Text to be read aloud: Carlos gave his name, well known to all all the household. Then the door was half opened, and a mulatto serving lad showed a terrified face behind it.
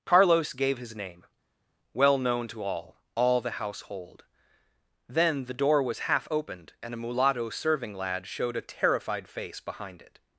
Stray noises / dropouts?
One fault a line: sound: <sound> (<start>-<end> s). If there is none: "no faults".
no faults